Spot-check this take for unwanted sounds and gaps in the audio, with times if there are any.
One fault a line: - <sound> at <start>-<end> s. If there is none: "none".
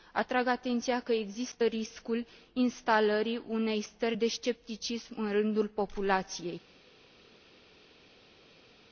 none